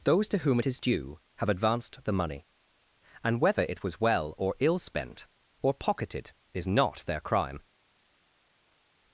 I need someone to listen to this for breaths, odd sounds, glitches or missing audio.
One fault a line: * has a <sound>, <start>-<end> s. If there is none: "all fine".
all fine